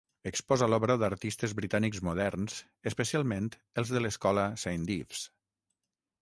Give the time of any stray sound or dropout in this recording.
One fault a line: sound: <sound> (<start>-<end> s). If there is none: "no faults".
no faults